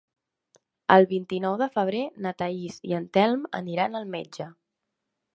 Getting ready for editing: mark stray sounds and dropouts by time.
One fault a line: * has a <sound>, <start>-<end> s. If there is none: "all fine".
all fine